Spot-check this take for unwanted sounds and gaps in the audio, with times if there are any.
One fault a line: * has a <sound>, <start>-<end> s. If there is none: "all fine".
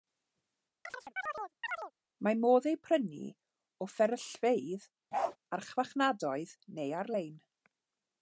* has a chirp, 0.9-1.9 s
* has a bark, 5.1-5.4 s